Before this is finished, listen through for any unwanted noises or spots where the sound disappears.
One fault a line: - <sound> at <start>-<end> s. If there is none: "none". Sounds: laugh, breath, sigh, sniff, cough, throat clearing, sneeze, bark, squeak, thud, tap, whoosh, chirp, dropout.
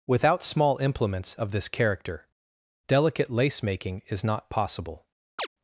- chirp at 5.4-5.5 s